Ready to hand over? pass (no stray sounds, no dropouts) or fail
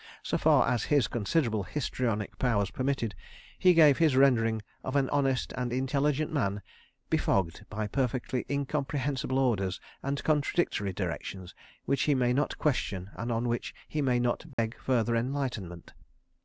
fail